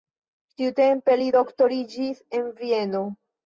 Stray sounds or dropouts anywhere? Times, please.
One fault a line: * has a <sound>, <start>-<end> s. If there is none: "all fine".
all fine